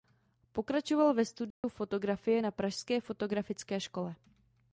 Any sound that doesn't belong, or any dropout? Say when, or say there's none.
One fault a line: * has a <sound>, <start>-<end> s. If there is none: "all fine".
* has a dropout, 1.5-1.6 s